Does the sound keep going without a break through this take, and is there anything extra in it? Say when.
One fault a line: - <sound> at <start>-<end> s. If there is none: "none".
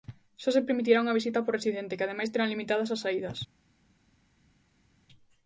none